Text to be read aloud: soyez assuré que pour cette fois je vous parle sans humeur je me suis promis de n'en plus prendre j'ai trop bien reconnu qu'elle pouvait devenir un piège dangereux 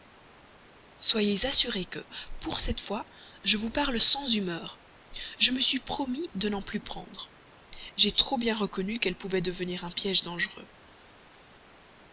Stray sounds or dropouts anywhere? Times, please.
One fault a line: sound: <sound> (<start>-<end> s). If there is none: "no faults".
no faults